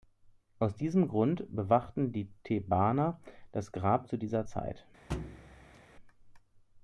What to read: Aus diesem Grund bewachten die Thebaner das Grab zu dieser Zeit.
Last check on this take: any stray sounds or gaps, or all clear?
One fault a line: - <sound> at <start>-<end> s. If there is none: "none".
- thud at 5.1-5.8 s